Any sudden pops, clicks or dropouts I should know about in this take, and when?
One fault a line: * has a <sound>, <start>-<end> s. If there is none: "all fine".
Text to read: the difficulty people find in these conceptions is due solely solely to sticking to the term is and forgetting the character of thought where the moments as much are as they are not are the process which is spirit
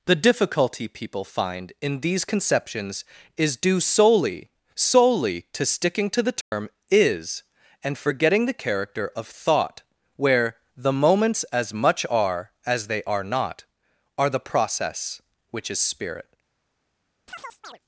* has a dropout, 6.4-6.5 s
* has a chirp, 17.3-17.8 s